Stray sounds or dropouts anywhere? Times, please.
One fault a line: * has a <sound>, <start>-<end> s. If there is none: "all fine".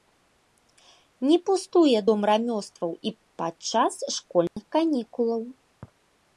* has a dropout, 4.5-4.6 s